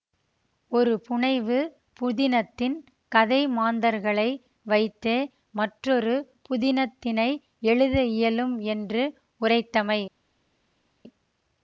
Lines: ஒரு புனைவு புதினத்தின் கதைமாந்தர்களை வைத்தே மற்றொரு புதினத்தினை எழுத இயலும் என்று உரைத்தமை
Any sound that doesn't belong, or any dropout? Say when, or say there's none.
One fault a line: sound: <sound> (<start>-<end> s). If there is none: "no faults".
no faults